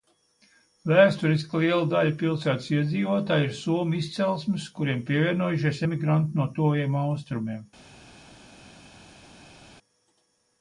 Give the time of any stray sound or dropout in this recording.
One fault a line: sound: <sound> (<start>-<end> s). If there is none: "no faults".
no faults